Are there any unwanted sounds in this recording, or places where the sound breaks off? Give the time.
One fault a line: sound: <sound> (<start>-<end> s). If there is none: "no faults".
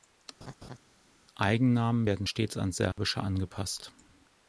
sound: laugh (0.4-0.8 s)
sound: dropout (2.9-3.0 s)